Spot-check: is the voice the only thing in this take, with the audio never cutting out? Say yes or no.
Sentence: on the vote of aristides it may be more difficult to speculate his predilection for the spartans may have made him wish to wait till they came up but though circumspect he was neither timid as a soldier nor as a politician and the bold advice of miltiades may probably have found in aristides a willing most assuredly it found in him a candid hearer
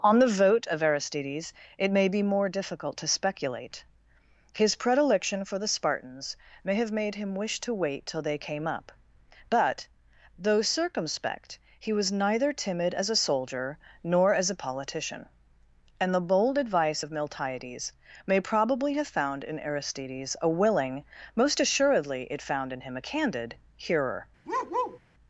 no